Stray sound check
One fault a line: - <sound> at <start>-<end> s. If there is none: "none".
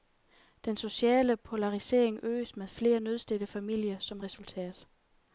none